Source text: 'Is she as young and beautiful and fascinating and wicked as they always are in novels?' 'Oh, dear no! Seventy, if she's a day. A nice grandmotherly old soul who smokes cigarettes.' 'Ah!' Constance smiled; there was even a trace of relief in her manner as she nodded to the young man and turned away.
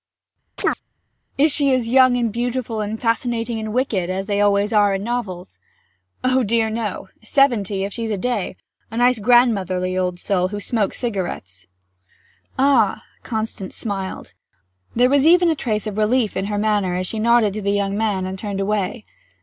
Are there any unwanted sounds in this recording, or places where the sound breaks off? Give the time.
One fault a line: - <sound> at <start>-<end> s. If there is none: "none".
- chirp at 0.6-0.8 s